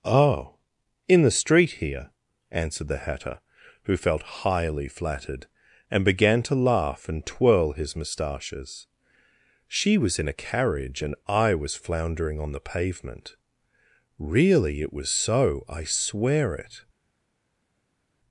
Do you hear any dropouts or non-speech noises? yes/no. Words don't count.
no